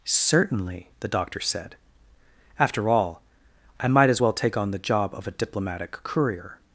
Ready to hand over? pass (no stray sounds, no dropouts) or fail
pass